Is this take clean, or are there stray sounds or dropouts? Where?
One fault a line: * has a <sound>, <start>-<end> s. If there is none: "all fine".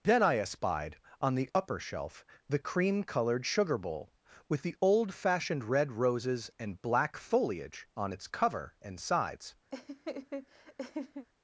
* has a laugh, 9.7-11.3 s